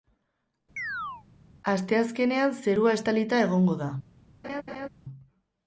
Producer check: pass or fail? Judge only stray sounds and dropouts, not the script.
fail